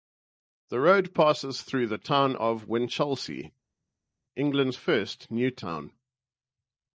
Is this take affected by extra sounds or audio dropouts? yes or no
no